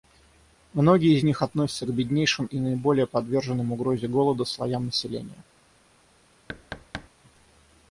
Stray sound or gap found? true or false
true